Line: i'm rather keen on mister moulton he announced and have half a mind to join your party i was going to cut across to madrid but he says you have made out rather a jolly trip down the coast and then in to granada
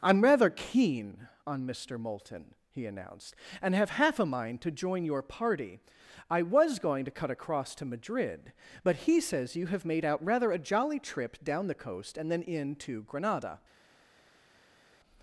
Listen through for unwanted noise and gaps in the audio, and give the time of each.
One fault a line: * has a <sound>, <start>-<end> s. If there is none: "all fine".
all fine